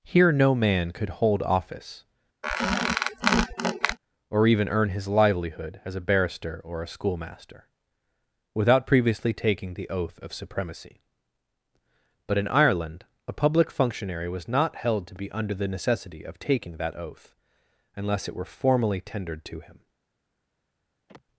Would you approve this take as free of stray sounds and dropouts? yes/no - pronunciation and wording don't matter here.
no